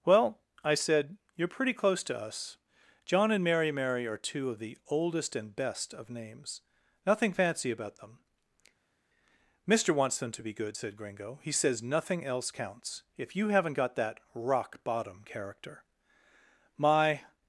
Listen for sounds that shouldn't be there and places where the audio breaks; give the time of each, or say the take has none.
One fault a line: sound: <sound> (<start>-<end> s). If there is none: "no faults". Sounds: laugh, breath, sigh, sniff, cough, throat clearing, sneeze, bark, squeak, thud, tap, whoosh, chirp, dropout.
no faults